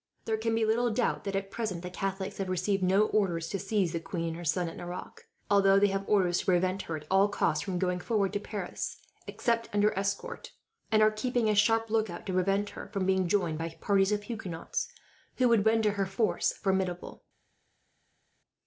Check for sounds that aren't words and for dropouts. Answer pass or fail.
pass